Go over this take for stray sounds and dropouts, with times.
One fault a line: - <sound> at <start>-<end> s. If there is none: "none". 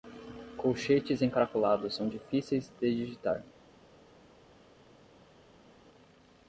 none